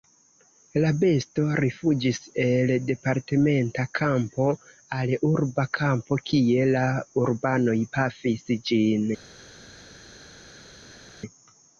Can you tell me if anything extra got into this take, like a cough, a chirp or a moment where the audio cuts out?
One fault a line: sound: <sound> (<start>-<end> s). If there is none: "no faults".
no faults